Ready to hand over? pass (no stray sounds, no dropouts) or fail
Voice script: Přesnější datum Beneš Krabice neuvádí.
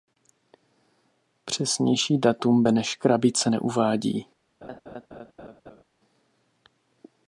fail